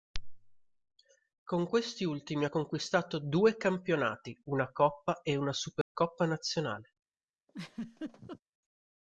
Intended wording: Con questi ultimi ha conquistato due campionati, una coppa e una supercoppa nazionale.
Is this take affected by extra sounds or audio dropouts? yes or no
yes